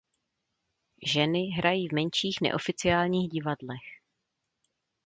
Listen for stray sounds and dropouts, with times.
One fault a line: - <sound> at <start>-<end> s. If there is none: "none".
none